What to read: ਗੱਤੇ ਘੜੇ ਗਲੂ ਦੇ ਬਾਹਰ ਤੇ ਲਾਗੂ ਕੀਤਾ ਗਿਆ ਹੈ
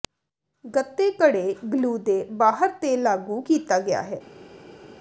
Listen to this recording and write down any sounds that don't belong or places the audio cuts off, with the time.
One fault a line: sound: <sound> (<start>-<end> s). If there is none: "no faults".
no faults